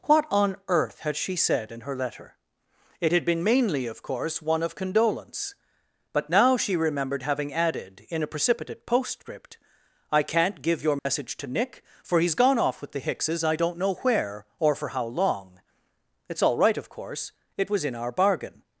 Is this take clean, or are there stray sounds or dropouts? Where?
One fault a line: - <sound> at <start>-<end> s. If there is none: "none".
- dropout at 11.0-11.1 s